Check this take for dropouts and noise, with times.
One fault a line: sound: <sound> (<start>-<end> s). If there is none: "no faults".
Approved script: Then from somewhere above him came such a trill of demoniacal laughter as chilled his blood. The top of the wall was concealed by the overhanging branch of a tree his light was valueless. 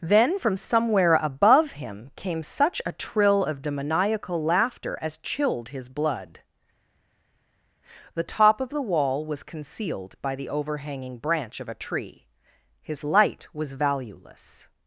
no faults